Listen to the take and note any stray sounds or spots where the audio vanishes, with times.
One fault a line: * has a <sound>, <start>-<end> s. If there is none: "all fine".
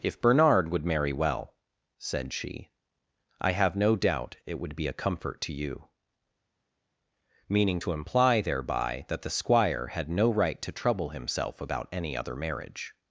all fine